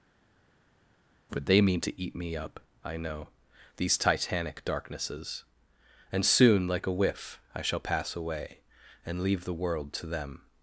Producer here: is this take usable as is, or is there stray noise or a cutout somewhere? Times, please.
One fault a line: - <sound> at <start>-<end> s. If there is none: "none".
none